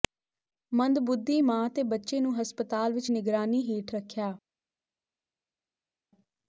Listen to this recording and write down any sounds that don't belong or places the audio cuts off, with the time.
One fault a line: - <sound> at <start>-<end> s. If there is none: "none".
none